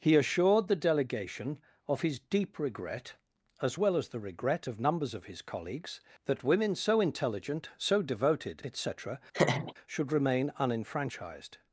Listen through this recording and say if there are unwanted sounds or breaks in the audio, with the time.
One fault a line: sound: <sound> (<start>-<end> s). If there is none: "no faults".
sound: laugh (9.3-9.7 s)